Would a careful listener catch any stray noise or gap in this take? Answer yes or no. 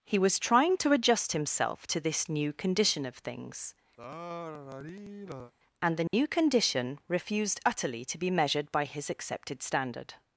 yes